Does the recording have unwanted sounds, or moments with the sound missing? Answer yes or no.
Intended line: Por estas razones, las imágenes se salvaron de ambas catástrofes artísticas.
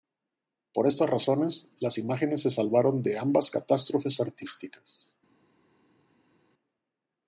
no